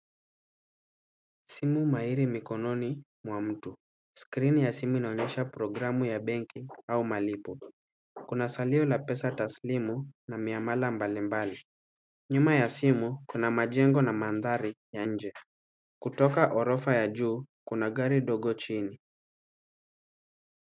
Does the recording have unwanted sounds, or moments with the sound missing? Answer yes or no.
no